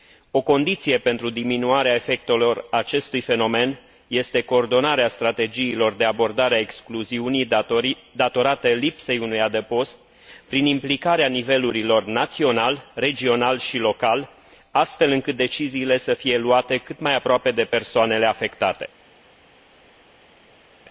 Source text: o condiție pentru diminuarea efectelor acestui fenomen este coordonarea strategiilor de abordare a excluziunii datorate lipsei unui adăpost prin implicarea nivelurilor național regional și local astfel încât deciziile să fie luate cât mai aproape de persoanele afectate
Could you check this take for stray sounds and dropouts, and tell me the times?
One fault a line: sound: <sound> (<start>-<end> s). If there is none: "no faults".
no faults